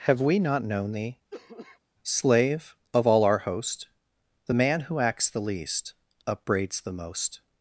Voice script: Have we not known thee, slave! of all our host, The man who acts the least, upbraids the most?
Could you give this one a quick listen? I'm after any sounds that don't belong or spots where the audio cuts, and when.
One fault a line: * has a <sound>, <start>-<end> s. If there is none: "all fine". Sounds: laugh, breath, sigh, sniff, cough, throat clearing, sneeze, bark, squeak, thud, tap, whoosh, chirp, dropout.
* has a cough, 1.3-1.8 s